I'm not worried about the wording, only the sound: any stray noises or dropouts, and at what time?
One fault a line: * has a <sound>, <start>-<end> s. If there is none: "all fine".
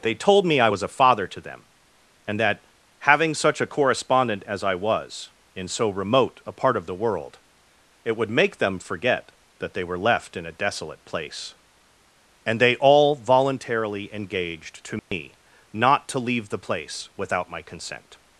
* has a dropout, 15.0-15.1 s